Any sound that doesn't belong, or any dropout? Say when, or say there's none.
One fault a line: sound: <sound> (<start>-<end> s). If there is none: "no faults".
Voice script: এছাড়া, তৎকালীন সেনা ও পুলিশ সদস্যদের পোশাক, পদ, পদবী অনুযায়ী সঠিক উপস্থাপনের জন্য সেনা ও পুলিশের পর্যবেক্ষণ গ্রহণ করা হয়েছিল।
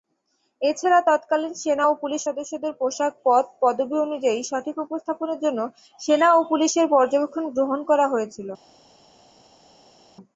no faults